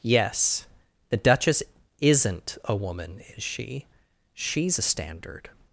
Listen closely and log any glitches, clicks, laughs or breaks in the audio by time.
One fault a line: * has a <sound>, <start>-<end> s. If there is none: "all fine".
all fine